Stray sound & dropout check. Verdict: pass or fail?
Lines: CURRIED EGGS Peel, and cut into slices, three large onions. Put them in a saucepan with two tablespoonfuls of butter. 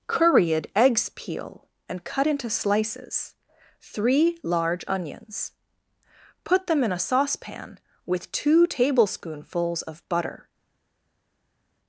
pass